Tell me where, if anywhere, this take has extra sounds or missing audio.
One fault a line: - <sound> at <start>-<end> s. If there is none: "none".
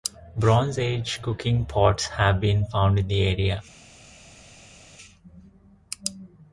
none